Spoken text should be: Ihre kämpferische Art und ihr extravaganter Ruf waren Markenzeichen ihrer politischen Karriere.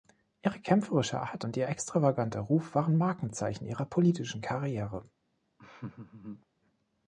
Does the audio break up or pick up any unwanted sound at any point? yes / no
yes